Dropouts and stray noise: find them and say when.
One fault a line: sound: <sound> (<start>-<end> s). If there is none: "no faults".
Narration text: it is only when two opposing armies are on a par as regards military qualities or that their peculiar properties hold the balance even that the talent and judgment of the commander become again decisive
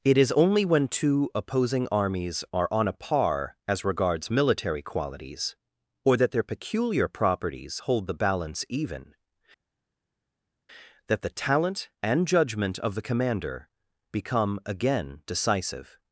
no faults